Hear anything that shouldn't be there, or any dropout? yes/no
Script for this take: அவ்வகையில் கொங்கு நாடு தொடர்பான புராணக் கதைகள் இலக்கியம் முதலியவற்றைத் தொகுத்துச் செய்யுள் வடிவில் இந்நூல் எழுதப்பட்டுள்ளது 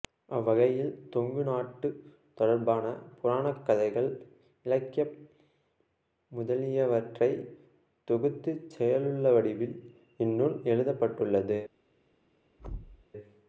yes